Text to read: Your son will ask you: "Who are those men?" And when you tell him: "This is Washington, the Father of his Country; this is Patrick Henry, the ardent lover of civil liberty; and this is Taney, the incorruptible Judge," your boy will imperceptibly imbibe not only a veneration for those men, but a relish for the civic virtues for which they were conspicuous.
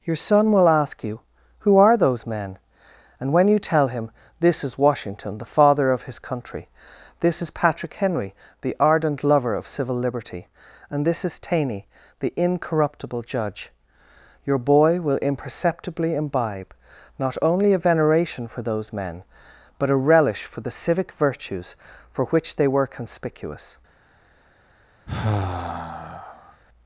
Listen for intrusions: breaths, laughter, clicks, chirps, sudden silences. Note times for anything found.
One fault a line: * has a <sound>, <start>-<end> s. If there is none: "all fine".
* has a sigh, 25.1-26.6 s